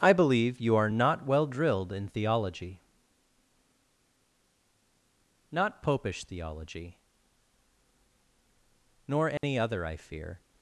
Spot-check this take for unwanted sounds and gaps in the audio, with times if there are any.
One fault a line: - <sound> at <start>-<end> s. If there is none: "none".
- dropout at 9.4-9.4 s